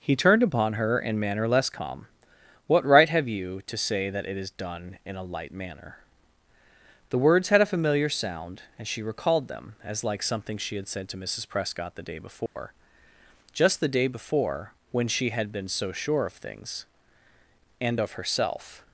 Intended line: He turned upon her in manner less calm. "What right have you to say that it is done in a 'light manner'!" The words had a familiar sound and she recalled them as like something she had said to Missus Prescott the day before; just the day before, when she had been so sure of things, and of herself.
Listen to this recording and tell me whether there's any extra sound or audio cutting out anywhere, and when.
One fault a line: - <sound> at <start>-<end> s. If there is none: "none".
- dropout at 12.5-12.6 s